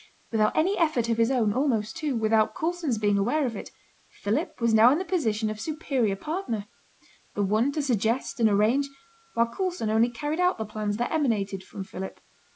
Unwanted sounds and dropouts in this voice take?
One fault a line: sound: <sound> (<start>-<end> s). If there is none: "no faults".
no faults